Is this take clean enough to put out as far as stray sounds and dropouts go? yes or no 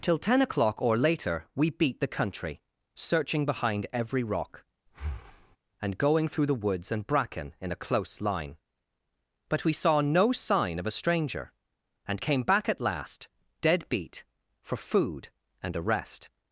no